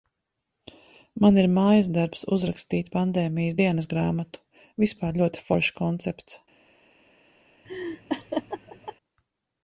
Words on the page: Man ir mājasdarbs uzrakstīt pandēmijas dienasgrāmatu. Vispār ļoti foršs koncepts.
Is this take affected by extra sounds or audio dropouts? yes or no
yes